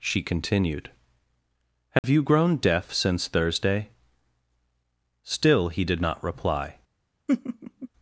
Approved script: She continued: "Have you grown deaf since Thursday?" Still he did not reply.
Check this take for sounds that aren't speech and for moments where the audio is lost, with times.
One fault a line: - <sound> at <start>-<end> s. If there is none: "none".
- dropout at 2.0-2.0 s
- laugh at 7.3-7.9 s